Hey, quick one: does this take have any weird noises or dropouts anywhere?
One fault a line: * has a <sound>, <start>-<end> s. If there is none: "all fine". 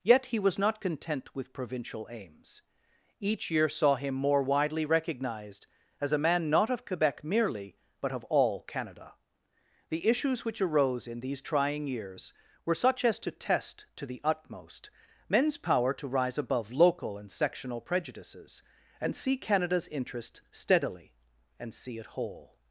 all fine